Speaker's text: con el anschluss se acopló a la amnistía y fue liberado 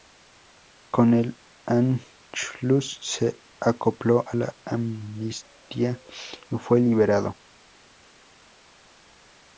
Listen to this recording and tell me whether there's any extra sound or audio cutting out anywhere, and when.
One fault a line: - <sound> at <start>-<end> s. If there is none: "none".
none